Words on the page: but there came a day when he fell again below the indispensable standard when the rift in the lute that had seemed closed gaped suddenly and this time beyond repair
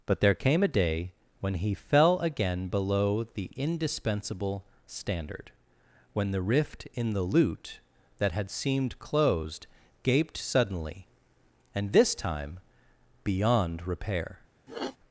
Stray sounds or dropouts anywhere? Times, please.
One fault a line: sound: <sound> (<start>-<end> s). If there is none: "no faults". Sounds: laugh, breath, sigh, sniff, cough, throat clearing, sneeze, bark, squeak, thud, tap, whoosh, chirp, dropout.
sound: sniff (14.7-15.0 s)